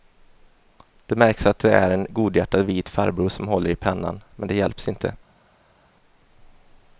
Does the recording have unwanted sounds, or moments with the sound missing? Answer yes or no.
no